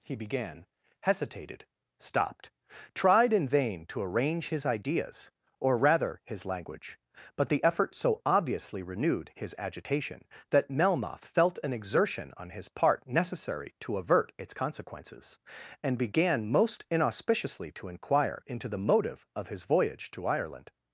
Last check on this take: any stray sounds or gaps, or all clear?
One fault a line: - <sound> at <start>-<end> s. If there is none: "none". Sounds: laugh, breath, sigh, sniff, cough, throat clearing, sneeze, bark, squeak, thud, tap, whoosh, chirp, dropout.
none